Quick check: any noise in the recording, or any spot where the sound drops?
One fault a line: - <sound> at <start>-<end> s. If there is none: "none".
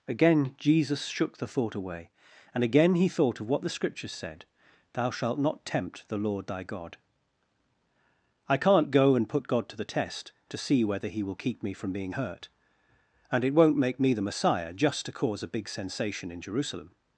none